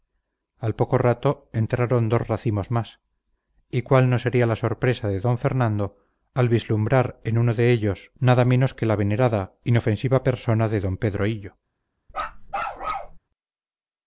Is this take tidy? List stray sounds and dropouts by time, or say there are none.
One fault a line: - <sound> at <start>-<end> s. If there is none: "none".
- bark at 12.1-13.2 s